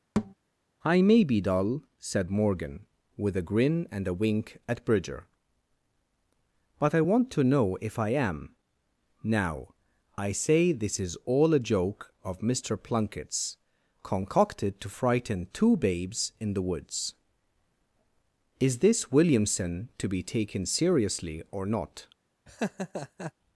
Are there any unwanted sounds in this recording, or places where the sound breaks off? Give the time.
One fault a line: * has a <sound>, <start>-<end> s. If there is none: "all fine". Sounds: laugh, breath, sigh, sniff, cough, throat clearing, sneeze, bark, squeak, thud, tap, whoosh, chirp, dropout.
* has a thud, 0.2-0.3 s
* has a laugh, 22.5-23.3 s